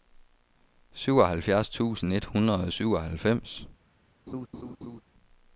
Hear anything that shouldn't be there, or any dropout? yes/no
yes